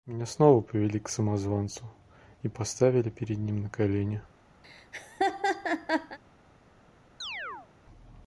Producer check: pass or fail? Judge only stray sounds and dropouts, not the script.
fail